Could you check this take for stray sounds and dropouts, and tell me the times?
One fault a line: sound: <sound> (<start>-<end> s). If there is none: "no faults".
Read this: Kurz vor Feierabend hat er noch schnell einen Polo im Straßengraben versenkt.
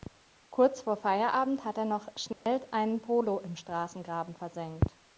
sound: dropout (2.3-2.5 s)